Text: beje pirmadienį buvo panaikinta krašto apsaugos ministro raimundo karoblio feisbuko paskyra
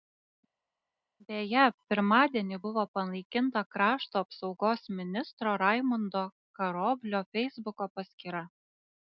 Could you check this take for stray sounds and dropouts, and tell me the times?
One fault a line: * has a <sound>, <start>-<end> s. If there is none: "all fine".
all fine